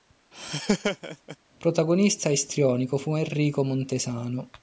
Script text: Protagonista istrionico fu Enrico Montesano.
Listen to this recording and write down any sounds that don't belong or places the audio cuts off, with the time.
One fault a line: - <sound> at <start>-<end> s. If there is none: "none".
- laugh at 0.3-1.4 s